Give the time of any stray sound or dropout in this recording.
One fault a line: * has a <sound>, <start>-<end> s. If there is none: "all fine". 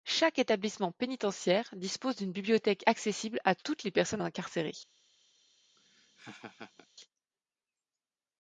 * has a laugh, 5.8-6.9 s